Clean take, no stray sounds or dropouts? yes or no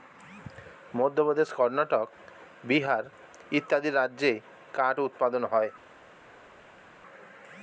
yes